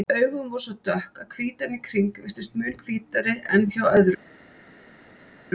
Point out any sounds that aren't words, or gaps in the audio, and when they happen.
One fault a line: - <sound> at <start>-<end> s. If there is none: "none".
none